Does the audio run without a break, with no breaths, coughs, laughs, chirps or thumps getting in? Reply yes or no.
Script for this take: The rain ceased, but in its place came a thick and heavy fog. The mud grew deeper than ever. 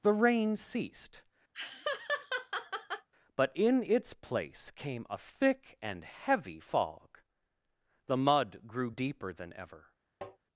no